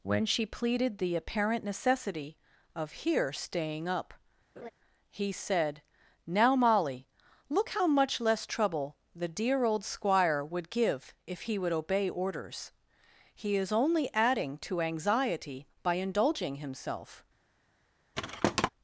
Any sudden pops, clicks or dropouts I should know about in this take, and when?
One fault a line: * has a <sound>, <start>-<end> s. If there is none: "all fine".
* has a laugh, 4.6-4.7 s
* has a thud, 18.1-18.7 s